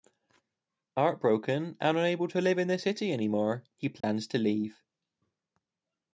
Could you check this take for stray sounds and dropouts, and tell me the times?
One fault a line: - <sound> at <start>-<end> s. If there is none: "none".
- dropout at 4.0-4.0 s